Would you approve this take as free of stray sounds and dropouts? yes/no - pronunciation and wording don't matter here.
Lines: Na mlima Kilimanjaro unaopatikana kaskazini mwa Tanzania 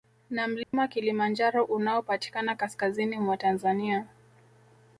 no